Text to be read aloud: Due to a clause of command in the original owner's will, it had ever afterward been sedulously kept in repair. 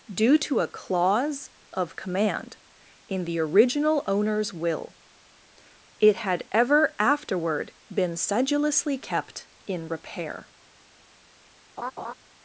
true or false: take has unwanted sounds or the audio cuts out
true